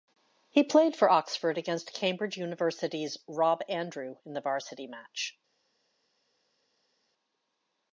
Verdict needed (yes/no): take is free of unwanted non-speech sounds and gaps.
yes